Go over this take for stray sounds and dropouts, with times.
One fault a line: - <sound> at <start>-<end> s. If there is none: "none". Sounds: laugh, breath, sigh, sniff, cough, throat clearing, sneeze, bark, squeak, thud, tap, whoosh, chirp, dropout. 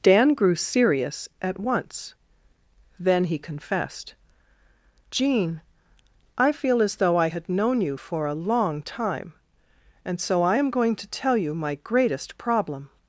none